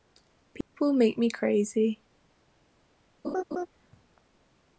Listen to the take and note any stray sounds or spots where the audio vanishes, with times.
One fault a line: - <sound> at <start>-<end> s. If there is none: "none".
- dropout at 0.6-0.7 s
- laugh at 3.2-3.7 s